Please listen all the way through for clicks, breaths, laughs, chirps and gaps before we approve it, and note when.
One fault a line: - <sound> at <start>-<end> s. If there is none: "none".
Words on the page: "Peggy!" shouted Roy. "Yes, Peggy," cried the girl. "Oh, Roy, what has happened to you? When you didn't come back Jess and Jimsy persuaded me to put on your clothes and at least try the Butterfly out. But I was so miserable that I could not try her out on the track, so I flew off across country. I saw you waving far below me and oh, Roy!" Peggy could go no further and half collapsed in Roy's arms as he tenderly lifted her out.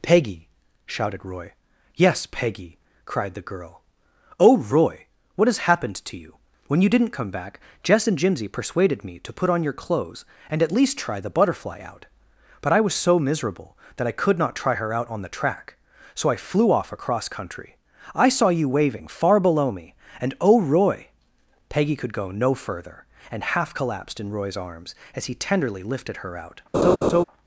- laugh at 26.7-27.2 s